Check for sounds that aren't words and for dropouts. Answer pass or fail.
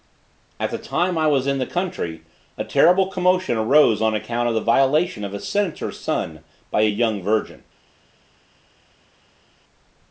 pass